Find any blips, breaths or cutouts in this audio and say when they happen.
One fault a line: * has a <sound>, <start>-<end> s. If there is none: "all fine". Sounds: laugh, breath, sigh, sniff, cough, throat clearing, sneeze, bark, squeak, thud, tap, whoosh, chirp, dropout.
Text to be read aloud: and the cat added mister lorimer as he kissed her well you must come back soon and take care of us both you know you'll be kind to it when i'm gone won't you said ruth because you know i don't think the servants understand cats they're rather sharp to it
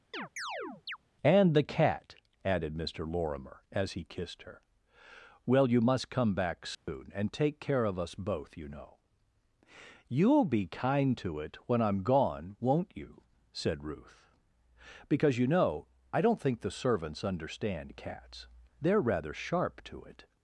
* has a chirp, 0.1-1.0 s
* has a dropout, 6.7-6.9 s